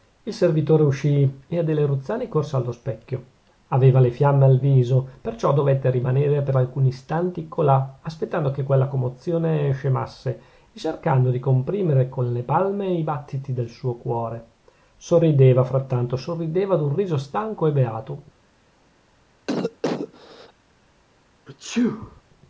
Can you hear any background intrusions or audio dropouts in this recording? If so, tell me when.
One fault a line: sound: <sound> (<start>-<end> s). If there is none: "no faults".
sound: cough (19.5-20.5 s)
sound: sneeze (21.5-22.2 s)